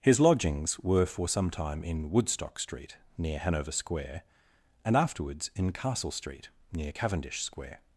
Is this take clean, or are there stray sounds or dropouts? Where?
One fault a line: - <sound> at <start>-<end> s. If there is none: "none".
none